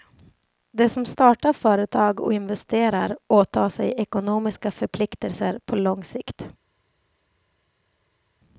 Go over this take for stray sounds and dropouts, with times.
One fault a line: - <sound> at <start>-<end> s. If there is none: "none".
none